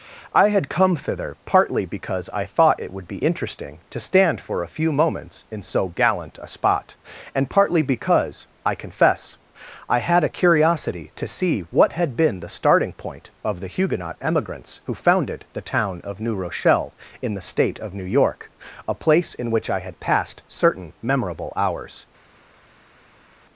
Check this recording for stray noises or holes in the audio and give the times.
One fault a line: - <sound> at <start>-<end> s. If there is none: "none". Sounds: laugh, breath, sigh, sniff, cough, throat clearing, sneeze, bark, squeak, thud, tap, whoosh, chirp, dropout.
none